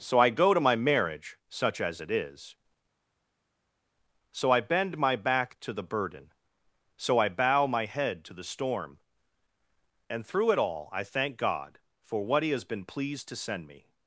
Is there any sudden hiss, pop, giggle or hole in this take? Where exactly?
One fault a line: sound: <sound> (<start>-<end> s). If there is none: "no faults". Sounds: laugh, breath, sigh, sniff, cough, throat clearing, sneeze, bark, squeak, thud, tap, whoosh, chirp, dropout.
no faults